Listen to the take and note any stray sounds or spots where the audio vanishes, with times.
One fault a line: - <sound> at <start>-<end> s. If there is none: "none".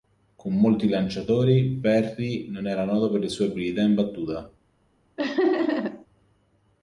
- laugh at 5.2-6.1 s